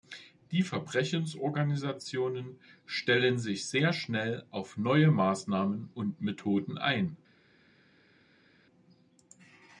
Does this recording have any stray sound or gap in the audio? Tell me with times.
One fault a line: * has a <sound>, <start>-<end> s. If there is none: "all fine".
all fine